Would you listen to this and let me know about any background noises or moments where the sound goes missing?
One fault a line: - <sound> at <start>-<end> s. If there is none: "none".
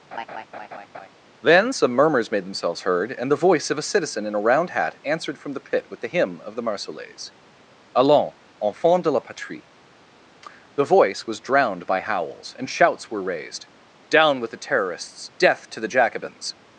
- laugh at 0.1-1.1 s